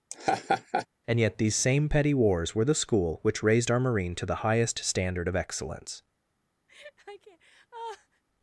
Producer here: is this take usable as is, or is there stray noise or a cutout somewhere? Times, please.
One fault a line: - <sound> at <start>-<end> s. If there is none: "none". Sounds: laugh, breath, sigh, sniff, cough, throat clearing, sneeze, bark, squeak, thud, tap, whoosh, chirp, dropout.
- laugh at 0.1-0.9 s
- laugh at 6.7-8.2 s